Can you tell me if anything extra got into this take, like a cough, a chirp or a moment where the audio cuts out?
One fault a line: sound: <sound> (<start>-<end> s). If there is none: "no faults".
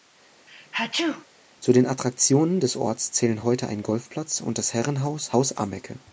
sound: sneeze (0.5-1.3 s)